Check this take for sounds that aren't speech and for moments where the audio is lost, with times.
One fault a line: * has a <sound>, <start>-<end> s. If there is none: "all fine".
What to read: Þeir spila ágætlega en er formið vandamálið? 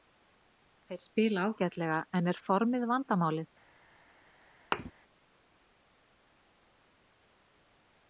* has a thud, 4.7-4.9 s